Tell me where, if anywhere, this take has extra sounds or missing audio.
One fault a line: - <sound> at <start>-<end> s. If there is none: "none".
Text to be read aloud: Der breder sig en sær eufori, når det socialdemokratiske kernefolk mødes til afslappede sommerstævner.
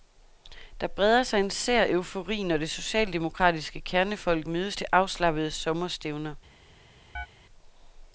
- chirp at 7.2-7.3 s